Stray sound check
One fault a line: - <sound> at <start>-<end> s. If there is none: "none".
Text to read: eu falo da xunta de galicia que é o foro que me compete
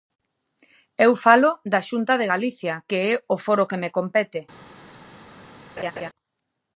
- laugh at 5.8-6.1 s